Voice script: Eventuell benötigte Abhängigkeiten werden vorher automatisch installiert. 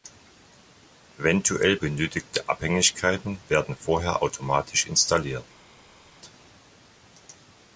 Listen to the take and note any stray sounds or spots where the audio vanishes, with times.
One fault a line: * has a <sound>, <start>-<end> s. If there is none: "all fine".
all fine